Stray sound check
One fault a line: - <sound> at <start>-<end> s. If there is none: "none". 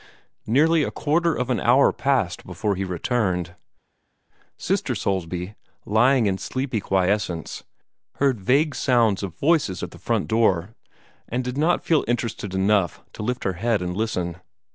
none